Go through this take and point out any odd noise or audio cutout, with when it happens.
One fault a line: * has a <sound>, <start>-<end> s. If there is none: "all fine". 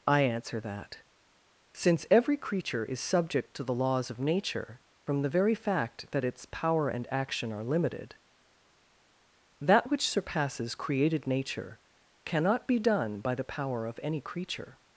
all fine